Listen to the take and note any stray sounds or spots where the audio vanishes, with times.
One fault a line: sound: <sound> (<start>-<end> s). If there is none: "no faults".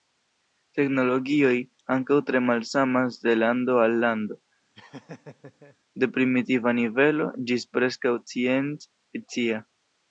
sound: laugh (4.7-5.8 s)